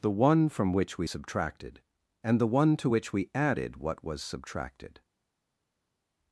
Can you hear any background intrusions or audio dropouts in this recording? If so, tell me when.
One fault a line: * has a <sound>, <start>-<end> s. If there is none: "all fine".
all fine